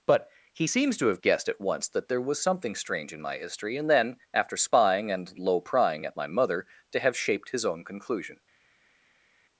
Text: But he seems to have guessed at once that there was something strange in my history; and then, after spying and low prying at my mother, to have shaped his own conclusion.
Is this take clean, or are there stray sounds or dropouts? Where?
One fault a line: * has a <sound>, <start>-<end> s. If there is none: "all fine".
all fine